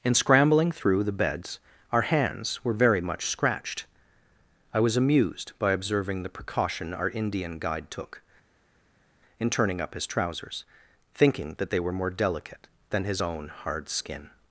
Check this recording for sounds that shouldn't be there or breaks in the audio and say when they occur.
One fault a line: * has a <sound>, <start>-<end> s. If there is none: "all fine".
all fine